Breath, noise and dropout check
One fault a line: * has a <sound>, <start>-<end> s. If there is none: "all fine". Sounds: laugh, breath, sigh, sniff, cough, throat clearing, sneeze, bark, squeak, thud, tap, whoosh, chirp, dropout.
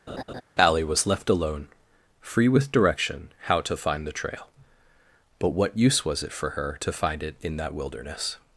* has a laugh, 0.1-0.4 s